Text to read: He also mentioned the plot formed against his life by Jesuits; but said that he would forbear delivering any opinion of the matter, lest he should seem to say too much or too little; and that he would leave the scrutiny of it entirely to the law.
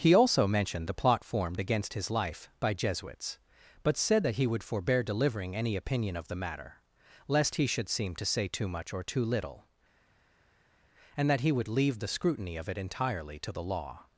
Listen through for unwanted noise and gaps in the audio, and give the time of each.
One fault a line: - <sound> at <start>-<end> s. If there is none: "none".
none